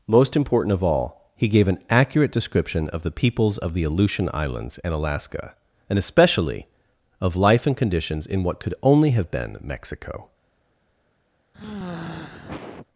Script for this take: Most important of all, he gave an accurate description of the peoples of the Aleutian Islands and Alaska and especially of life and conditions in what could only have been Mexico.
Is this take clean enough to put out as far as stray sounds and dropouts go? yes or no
no